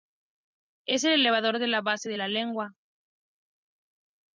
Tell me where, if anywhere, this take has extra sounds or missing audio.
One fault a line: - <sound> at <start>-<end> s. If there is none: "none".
none